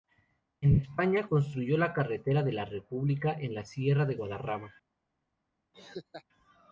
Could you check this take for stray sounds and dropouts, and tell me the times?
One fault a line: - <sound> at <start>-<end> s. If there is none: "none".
- laugh at 5.7-6.2 s